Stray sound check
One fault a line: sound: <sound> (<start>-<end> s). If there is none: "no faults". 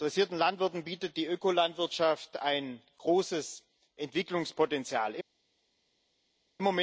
no faults